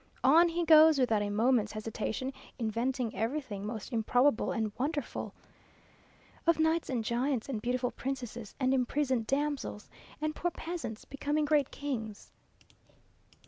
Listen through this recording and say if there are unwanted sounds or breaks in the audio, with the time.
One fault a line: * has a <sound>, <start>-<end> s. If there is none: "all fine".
all fine